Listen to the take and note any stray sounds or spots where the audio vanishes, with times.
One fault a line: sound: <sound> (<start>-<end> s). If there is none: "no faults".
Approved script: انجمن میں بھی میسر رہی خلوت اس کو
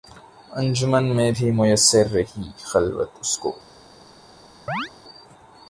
sound: chirp (4.7-4.9 s)